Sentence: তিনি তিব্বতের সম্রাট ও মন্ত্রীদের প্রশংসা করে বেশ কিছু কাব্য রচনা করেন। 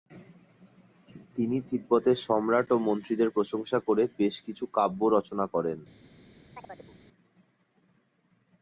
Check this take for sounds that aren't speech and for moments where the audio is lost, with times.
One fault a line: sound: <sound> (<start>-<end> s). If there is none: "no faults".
sound: chirp (6.5-7.0 s)